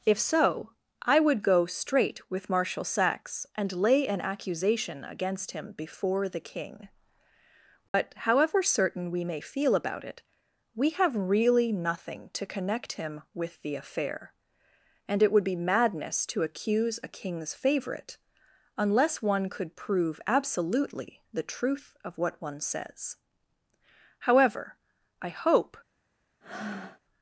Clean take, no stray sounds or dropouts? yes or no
no